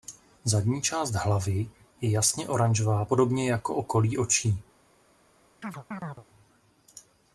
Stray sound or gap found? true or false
true